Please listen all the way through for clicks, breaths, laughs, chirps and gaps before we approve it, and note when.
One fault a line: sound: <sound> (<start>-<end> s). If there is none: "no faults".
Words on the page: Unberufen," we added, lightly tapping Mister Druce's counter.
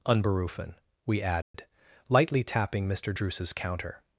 sound: dropout (1.4-1.5 s)